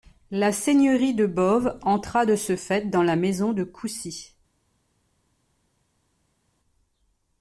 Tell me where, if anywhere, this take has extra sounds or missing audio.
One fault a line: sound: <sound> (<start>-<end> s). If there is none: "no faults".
no faults